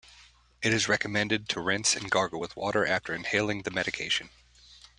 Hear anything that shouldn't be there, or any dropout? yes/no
no